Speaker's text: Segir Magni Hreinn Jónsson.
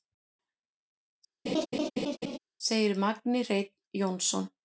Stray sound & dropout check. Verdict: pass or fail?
fail